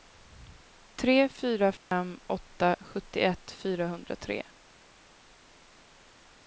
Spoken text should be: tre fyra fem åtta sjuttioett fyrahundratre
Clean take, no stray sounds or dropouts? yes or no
no